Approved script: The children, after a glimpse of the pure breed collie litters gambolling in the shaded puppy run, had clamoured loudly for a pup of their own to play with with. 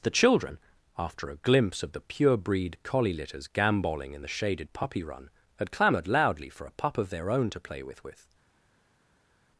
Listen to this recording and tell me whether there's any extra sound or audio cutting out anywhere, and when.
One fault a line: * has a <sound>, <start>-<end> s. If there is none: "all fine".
all fine